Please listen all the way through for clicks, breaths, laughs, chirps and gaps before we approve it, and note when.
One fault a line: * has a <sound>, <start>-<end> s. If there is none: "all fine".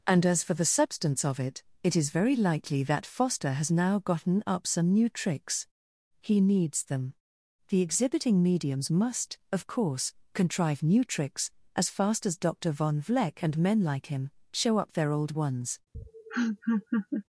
* has a laugh, 15.9-17.2 s